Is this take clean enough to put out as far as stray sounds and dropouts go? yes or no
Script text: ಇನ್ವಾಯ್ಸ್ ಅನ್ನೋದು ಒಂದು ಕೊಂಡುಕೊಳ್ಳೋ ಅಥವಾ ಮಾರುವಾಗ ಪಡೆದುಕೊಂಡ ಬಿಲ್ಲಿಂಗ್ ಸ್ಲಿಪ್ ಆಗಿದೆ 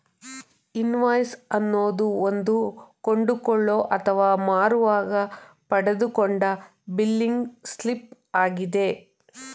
yes